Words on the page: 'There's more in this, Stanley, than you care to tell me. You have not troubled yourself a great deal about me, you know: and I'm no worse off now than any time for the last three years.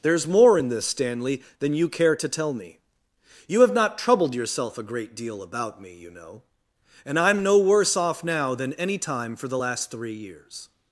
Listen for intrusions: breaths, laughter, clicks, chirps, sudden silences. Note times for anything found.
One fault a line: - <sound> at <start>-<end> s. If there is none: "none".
none